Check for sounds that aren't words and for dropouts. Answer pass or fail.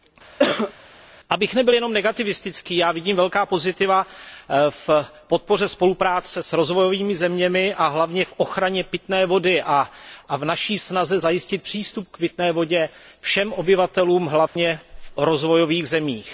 fail